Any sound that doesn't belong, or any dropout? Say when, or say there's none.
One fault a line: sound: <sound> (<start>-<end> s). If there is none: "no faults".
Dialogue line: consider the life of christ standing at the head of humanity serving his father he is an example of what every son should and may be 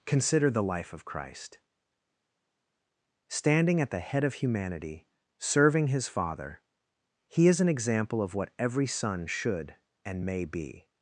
no faults